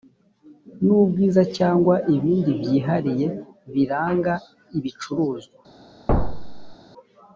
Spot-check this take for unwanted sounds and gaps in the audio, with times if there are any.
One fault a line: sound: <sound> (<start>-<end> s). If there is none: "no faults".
sound: thud (6.1-6.8 s)